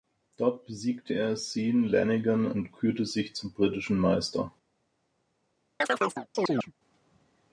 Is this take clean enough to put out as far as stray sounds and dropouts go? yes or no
no